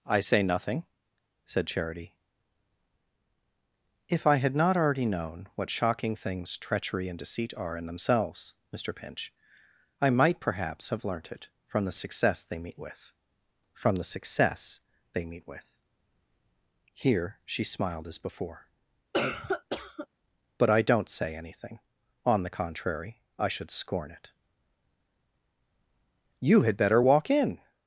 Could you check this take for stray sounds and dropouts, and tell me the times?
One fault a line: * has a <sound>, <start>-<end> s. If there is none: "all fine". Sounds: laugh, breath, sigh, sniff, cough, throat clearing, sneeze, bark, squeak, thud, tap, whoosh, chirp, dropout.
* has a cough, 19.1-20.1 s